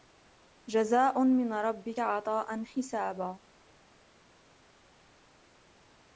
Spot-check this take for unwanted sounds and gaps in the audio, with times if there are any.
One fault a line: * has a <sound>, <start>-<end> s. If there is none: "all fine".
all fine